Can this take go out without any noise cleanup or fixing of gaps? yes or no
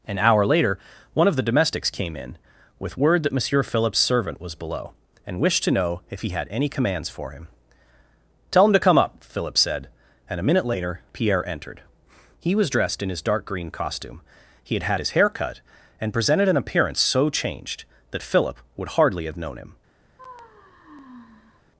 no